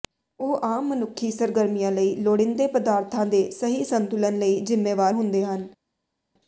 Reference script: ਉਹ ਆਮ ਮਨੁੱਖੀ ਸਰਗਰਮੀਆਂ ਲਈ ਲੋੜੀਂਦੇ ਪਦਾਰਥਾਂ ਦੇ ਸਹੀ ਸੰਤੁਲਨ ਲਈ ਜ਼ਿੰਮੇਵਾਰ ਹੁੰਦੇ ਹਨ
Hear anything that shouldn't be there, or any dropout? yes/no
no